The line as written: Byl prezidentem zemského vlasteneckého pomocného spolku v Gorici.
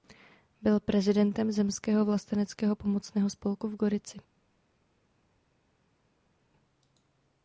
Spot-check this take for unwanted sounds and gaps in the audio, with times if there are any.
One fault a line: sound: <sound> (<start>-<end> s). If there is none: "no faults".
no faults